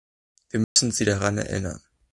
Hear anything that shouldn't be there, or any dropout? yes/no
yes